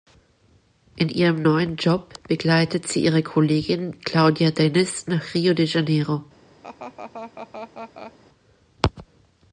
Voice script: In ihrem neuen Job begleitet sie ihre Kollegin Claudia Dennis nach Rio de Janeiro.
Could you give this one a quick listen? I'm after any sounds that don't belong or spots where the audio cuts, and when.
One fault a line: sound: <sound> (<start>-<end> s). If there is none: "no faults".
sound: laugh (6.6-8.1 s)